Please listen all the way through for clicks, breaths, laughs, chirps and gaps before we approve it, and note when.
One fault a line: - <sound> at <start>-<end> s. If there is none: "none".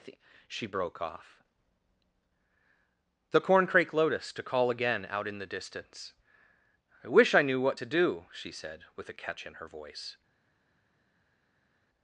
none